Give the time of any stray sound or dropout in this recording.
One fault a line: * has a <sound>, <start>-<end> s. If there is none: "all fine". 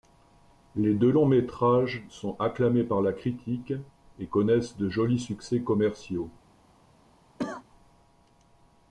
* has a cough, 7.4-7.6 s